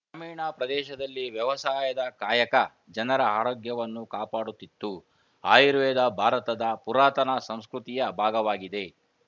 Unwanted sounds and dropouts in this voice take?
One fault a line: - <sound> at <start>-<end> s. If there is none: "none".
none